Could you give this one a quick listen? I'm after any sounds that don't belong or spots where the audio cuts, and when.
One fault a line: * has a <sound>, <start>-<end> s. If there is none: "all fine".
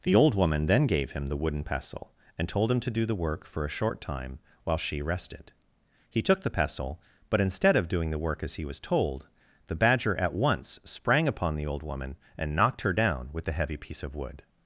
all fine